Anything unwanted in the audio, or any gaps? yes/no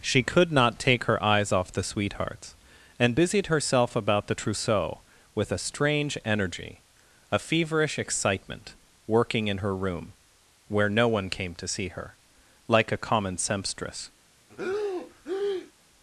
yes